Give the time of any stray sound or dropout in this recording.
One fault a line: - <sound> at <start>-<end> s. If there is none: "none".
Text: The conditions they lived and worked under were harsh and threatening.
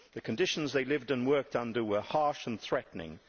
none